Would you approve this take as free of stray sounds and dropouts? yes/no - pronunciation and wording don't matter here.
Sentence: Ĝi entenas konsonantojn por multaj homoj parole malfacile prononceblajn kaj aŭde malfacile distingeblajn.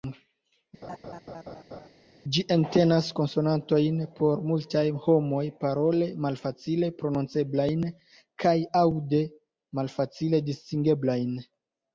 no